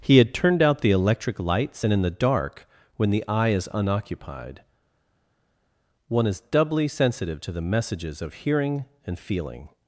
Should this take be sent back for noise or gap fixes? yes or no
no